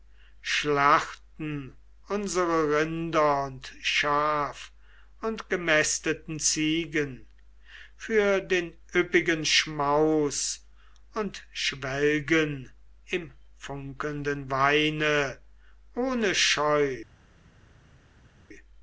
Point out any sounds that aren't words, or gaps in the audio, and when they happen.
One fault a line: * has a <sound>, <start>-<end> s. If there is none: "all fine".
all fine